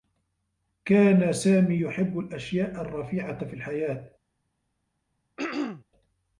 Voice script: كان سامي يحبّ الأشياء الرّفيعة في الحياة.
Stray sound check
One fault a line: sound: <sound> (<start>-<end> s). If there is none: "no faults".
sound: throat clearing (5.4-5.8 s)